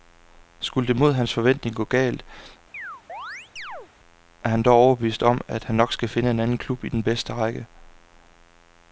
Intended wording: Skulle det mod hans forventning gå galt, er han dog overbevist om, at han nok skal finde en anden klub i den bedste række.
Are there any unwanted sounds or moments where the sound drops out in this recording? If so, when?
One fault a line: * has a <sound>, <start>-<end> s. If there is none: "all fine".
* has a chirp, 2.7-3.9 s